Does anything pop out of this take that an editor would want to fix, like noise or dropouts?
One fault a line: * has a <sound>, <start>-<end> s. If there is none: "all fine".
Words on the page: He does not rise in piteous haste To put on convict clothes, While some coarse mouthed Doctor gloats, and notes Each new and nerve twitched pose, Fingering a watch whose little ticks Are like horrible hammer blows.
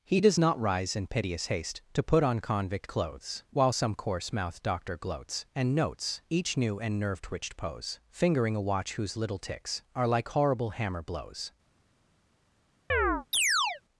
* has a chirp, 12.9-13.8 s